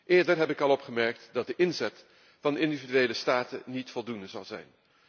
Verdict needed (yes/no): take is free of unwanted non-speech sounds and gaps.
yes